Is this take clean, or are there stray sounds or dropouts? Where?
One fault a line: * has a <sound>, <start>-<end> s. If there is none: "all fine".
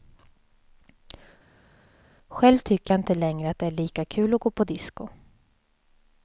all fine